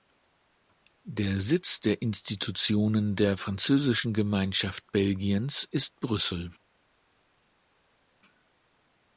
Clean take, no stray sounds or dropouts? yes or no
yes